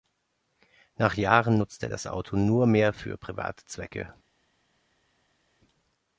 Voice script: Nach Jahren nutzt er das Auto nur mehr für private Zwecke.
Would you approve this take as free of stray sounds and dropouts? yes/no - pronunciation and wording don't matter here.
yes